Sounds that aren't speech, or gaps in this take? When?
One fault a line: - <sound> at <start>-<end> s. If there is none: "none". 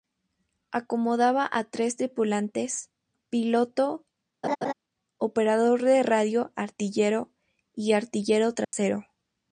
- laugh at 4.4-4.7 s
- dropout at 8.6-8.7 s